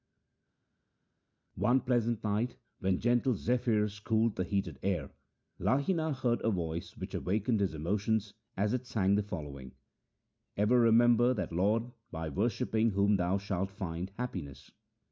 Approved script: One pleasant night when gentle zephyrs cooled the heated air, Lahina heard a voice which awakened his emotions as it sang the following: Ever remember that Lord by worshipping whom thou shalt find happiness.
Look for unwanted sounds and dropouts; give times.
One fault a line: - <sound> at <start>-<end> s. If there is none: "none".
none